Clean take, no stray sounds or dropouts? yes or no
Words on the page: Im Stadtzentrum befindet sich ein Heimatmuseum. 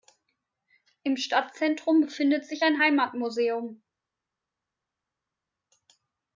yes